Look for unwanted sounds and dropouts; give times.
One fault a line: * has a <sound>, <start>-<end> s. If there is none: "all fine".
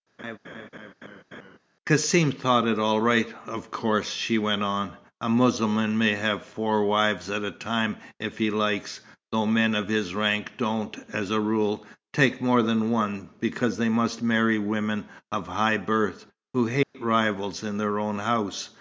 * has a laugh, 0.2-1.6 s
* has a dropout, 16.8-16.9 s